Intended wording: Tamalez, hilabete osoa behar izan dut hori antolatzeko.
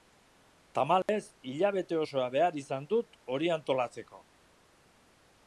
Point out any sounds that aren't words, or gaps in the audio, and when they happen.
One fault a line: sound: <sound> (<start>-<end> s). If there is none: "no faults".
sound: dropout (1.0-1.1 s)